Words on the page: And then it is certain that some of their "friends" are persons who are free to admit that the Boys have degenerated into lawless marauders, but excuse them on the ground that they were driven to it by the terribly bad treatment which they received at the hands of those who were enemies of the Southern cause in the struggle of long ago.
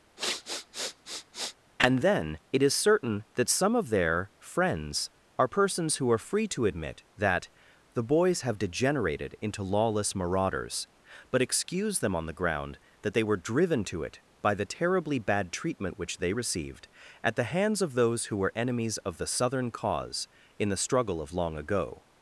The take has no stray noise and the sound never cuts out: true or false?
false